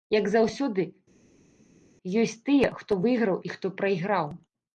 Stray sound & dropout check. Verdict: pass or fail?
pass